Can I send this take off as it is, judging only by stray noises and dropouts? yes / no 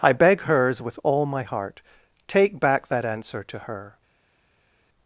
yes